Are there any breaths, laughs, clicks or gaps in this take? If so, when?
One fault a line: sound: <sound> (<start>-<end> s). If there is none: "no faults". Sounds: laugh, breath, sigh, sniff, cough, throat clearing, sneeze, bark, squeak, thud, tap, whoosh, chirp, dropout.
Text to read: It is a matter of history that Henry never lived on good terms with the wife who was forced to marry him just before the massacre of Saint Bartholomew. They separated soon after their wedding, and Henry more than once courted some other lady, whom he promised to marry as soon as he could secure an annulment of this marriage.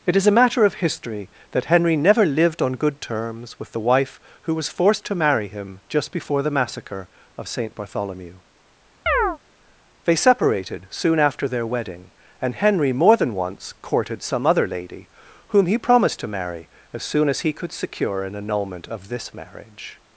sound: chirp (9.1-9.4 s)